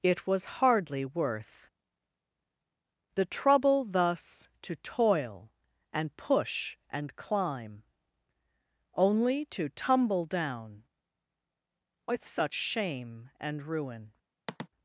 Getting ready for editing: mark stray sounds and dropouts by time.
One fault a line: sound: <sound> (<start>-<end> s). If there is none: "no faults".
sound: sniff (14.5-14.7 s)